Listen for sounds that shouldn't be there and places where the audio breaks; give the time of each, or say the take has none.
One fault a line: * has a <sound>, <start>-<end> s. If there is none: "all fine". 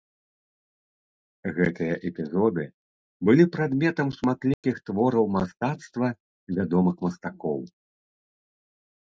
* has a dropout, 4.5-4.6 s